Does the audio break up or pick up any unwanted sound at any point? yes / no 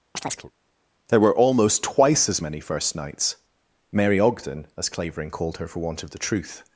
yes